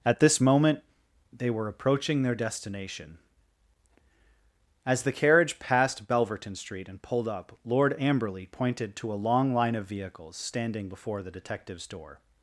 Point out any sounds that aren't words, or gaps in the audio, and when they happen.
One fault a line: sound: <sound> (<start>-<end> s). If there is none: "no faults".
no faults